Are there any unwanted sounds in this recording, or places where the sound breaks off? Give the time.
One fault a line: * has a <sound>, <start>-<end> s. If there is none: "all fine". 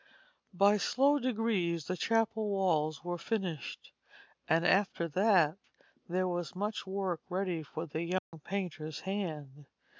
* has a dropout, 8.2-8.3 s